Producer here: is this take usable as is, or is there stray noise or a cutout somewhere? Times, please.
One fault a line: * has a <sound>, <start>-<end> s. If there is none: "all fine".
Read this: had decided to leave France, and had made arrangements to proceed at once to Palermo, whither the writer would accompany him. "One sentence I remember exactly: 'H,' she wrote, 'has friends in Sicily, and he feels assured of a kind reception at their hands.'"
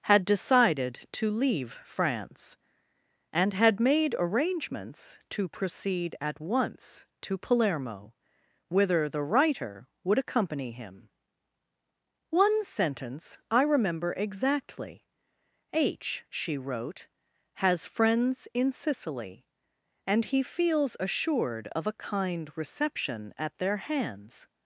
all fine